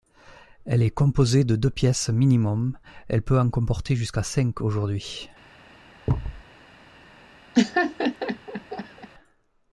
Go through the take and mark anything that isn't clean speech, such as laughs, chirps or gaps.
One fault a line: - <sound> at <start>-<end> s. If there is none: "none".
- thud at 6.1-6.4 s
- laugh at 7.5-9.1 s